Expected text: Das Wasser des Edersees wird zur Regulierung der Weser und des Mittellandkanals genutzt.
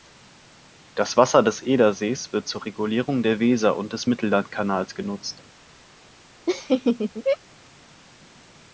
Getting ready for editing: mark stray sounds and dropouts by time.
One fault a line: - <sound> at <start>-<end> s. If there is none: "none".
- laugh at 6.5-7.4 s